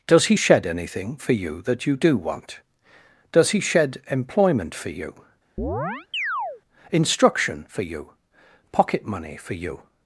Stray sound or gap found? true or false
true